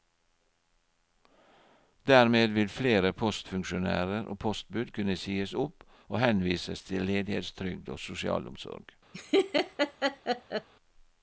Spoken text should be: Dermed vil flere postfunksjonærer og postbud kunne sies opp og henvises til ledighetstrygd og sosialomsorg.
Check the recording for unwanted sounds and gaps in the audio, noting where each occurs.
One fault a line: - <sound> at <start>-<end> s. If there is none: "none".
- laugh at 9.1-10.7 s